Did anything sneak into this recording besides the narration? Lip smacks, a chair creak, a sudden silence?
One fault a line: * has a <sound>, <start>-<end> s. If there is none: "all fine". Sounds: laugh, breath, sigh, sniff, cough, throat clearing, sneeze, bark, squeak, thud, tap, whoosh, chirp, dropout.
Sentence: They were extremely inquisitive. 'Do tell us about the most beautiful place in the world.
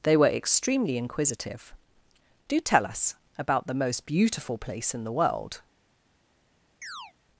* has a chirp, 6.8-7.1 s